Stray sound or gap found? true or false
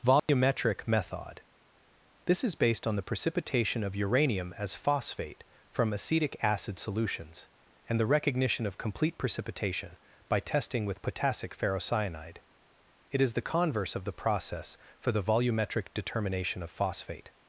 true